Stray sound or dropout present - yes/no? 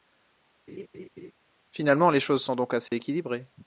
yes